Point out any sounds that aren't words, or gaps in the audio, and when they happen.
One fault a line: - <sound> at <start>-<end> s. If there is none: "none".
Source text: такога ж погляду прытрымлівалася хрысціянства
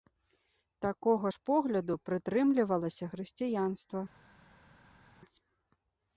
none